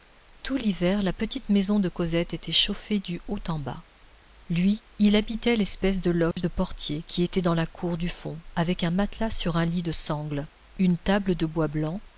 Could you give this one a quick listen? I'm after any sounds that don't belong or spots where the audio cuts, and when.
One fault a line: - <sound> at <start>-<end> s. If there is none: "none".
- dropout at 6.3-6.4 s